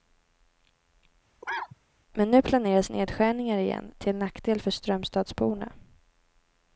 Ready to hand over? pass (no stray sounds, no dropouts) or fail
fail